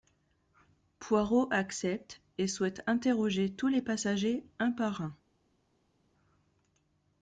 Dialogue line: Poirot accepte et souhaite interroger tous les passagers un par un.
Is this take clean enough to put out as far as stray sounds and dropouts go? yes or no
yes